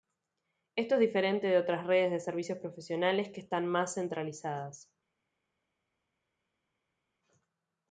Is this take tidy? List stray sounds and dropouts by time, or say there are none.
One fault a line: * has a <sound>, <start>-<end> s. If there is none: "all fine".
all fine